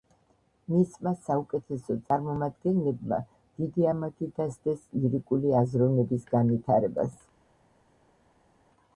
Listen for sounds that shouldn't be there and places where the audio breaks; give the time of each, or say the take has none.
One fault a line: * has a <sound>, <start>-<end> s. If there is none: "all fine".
all fine